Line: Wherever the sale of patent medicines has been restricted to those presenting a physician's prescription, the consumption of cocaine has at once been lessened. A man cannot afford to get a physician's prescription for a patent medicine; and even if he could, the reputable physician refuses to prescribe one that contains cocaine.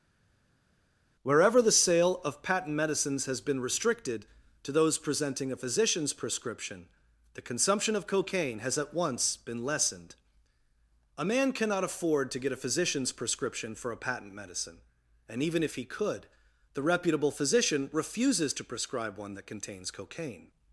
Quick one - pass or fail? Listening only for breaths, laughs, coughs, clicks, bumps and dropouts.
pass